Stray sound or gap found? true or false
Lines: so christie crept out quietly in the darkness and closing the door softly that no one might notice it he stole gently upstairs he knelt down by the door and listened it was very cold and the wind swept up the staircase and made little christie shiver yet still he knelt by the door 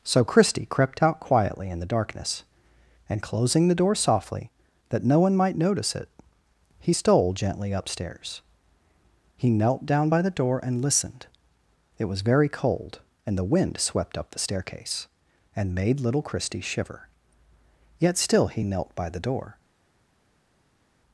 false